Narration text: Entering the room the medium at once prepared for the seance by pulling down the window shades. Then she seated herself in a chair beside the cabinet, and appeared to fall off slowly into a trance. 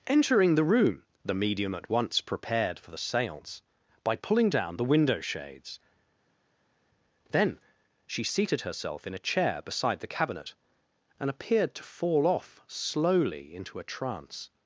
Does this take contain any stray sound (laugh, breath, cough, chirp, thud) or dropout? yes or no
no